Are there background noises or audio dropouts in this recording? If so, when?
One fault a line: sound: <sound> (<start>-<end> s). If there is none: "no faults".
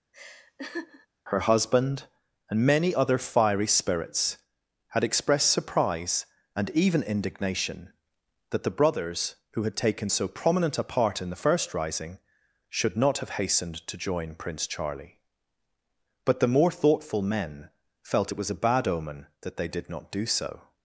sound: laugh (0.1-1.1 s)